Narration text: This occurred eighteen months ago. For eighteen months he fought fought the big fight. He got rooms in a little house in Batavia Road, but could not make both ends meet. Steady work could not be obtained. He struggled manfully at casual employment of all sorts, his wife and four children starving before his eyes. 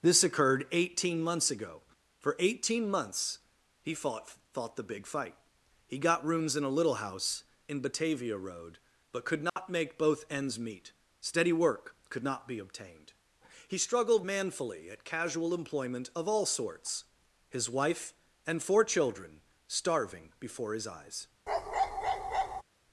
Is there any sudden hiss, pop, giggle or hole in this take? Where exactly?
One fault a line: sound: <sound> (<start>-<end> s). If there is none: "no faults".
sound: dropout (9.5-9.6 s)
sound: bark (21.5-22.6 s)